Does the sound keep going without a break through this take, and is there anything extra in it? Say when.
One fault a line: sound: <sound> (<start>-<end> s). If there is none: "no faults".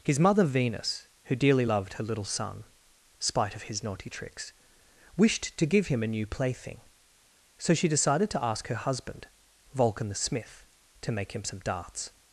no faults